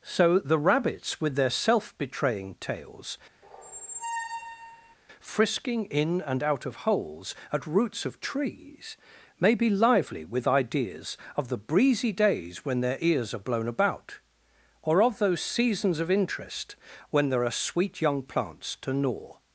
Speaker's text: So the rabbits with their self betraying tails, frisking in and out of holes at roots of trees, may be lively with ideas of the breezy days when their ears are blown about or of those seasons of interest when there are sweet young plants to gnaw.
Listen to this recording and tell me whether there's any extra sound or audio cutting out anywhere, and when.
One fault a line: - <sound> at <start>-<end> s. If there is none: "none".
- squeak at 3.4-5.0 s